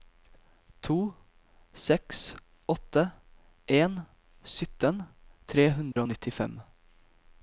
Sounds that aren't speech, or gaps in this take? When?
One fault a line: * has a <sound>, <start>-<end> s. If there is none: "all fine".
* has a dropout, 5.9-6.0 s